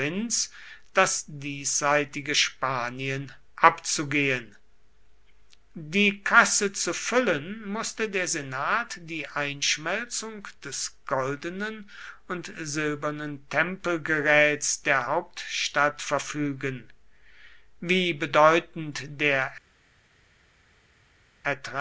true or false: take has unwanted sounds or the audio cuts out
false